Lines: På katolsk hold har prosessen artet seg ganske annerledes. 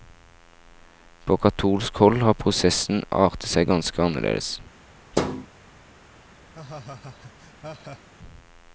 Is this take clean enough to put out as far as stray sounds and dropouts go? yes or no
no